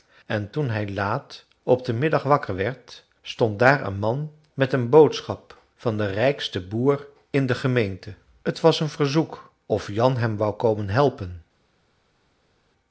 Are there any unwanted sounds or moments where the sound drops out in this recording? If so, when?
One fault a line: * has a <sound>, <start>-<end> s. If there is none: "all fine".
all fine